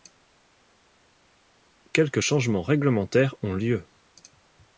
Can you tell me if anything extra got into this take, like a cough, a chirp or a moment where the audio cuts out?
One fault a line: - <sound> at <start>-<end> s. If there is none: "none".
none